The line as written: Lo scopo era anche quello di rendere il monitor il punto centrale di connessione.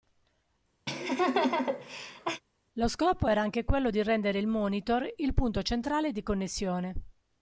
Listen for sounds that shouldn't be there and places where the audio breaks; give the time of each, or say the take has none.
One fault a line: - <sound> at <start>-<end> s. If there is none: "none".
- laugh at 0.9-2.4 s